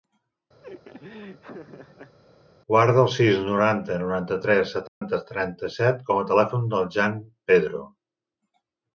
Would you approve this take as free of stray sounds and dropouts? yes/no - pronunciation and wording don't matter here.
no